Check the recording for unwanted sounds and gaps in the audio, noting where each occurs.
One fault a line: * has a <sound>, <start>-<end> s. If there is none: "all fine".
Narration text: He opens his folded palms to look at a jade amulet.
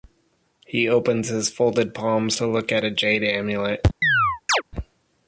* has a chirp, 4.0-4.6 s